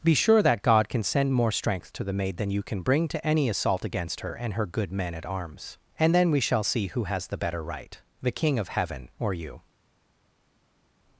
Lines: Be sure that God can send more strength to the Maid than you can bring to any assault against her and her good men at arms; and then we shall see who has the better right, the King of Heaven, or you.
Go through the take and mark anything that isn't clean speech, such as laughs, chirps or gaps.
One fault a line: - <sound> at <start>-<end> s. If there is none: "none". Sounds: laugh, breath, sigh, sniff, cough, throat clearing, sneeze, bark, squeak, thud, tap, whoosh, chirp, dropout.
none